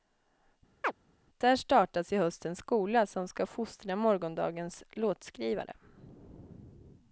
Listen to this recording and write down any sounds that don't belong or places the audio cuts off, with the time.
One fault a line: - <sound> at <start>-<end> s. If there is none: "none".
- chirp at 0.8-0.9 s